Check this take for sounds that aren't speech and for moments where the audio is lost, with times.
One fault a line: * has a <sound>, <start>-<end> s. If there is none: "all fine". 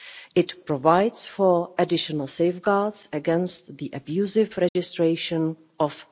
* has a dropout, 4.7-4.8 s